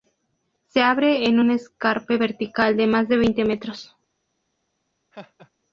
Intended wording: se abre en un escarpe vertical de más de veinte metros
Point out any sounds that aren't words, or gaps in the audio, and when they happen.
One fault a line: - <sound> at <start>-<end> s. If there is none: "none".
- laugh at 5.1-5.5 s